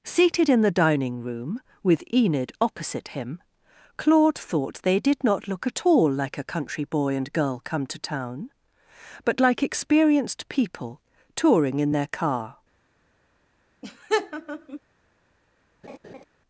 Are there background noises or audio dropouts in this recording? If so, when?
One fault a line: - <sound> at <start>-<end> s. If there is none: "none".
- laugh at 13.8-14.8 s
- laugh at 15.8-16.2 s